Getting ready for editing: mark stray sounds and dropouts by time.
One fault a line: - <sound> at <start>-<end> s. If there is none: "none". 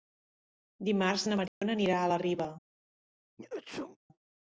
- dropout at 1.5-1.6 s
- sneeze at 3.4-4.0 s